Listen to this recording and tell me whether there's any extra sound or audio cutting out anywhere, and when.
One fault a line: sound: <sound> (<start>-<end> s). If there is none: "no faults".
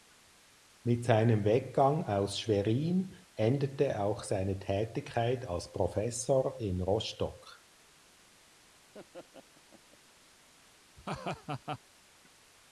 sound: laugh (8.9-10.0 s)
sound: laugh (11.0-11.8 s)